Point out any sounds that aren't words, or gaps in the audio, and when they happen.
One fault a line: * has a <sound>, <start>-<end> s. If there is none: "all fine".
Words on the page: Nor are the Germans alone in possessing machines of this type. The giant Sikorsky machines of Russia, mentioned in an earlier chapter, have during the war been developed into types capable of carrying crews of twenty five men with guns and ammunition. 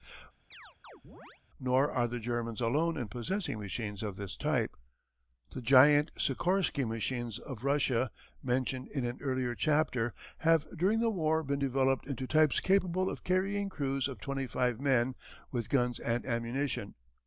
* has a chirp, 0.5-1.4 s